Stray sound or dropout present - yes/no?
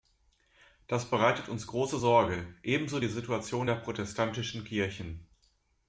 no